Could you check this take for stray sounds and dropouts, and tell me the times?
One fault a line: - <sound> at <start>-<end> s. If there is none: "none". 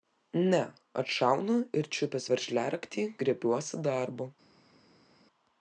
none